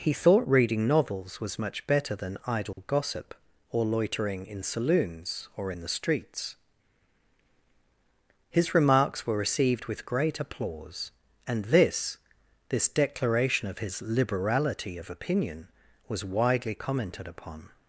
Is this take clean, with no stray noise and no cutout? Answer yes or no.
no